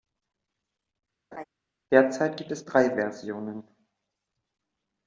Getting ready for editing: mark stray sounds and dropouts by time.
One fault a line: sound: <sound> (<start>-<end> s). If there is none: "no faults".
sound: laugh (1.3-1.4 s)